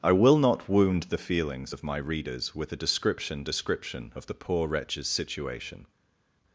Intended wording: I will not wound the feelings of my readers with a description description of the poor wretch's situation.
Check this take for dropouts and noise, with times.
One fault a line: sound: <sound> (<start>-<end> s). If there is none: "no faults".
no faults